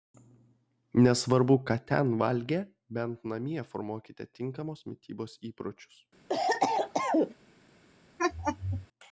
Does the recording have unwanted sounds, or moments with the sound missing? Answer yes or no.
yes